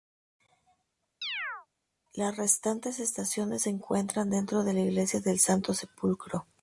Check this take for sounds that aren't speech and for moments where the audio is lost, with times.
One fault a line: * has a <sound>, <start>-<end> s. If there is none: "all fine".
* has a chirp, 1.2-1.7 s